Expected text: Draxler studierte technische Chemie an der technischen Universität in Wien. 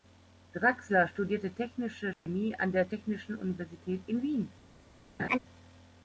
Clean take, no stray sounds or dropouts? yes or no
no